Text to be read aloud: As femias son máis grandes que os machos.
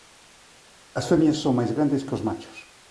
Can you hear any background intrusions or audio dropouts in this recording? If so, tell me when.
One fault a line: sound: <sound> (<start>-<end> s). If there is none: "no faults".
no faults